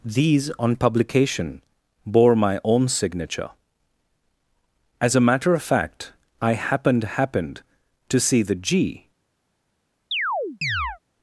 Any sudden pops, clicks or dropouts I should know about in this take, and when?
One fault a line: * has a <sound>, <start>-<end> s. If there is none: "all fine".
* has a chirp, 10.1-11.0 s